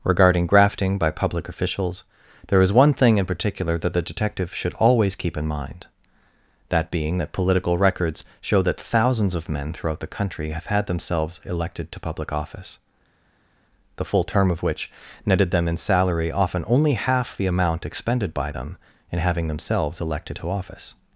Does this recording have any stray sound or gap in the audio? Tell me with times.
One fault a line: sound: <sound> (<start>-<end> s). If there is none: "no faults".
no faults